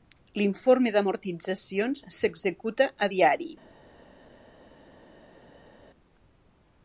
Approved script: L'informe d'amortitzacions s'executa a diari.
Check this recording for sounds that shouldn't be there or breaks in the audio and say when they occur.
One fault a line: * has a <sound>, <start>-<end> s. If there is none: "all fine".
all fine